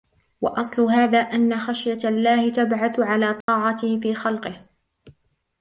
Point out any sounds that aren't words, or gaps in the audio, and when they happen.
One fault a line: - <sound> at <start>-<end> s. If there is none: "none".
- dropout at 3.4-3.5 s